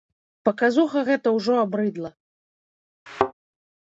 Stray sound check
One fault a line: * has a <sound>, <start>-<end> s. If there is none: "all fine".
* has a thud, 3.1-3.3 s